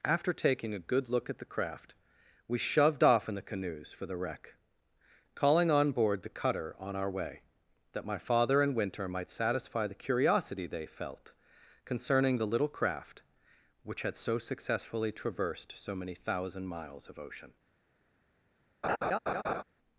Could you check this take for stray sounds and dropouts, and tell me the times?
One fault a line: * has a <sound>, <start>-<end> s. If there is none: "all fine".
* has a laugh, 18.8-19.6 s